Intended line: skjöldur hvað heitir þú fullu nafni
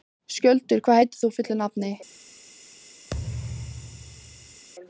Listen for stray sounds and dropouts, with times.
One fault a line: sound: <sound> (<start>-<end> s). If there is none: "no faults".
sound: thud (3.1-4.7 s)